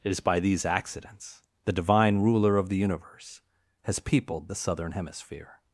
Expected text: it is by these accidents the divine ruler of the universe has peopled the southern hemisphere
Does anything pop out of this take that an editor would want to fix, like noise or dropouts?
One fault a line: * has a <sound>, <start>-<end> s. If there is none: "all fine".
all fine